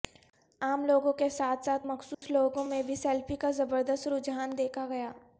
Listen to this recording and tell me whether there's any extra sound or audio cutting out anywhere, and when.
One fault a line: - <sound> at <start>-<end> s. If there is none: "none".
- dropout at 2.1-2.2 s